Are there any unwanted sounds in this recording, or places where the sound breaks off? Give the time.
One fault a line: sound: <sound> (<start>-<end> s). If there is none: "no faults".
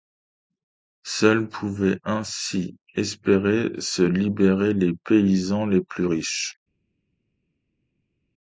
no faults